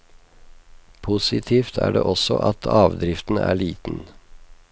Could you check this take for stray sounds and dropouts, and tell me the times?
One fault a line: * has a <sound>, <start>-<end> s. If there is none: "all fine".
all fine